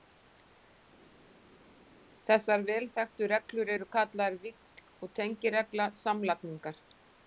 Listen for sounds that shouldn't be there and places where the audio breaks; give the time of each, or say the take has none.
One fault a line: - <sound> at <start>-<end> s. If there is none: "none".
none